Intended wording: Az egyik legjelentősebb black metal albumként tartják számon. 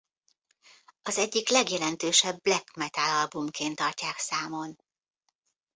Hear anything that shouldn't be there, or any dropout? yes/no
no